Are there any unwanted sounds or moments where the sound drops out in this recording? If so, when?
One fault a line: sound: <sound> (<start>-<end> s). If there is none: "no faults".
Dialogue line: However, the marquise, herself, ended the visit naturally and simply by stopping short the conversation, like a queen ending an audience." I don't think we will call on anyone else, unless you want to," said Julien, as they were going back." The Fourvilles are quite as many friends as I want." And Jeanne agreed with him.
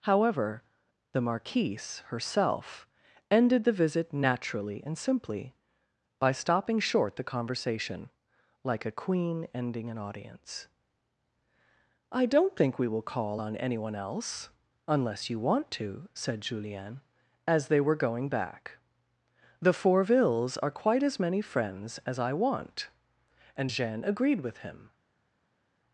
no faults